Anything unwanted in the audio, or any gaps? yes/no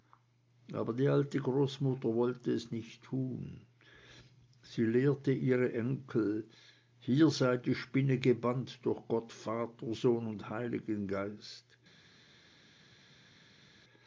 no